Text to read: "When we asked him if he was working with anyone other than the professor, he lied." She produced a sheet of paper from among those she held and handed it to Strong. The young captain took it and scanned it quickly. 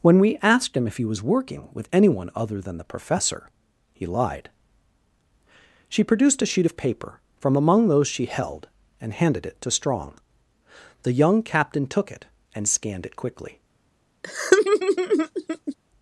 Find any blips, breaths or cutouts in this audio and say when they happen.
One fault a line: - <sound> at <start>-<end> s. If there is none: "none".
- laugh at 14.2-15.8 s